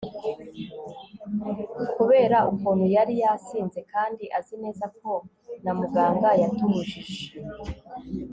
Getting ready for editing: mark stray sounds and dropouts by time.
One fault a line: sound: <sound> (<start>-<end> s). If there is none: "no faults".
no faults